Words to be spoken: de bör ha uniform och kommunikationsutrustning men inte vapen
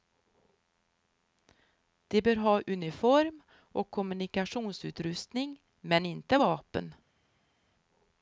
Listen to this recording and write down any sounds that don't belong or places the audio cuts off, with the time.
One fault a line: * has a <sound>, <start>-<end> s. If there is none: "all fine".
all fine